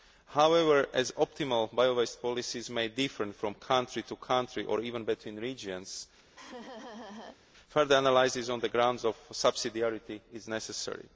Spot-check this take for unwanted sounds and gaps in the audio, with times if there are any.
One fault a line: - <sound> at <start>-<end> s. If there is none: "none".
- laugh at 6.4-7.4 s